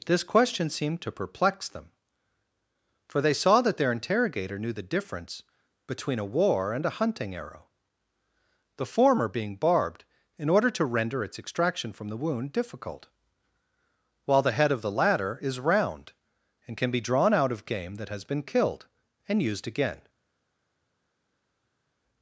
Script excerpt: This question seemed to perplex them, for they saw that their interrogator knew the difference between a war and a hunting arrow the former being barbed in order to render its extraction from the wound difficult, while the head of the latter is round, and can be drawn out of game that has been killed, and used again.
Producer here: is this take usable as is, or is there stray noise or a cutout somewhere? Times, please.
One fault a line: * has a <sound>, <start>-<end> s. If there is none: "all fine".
all fine